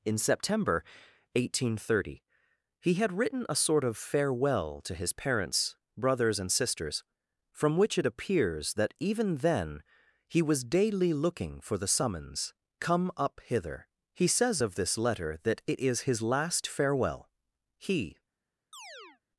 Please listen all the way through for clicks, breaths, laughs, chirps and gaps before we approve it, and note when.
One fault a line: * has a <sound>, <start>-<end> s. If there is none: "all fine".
* has a chirp, 18.7-19.2 s